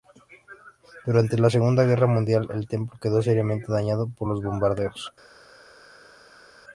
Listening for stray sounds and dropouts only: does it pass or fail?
pass